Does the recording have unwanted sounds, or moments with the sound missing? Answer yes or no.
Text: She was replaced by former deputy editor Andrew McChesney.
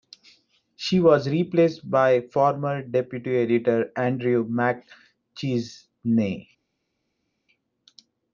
no